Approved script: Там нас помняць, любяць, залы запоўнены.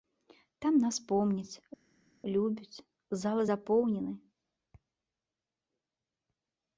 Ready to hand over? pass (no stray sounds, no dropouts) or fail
pass